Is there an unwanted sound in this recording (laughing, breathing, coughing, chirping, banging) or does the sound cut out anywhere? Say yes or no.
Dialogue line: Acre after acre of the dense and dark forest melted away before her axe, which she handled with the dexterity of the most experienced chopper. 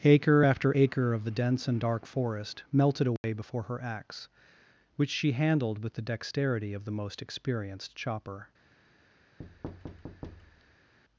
yes